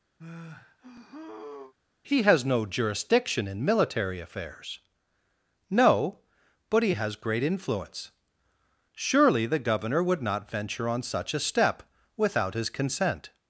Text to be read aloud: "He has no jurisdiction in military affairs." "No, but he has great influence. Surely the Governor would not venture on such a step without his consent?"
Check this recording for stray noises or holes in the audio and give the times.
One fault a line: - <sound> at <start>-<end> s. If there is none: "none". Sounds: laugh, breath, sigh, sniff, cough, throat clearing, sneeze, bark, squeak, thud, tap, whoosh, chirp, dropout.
- sigh at 0.2-1.7 s